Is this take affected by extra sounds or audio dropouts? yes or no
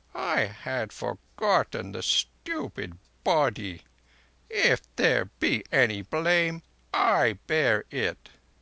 no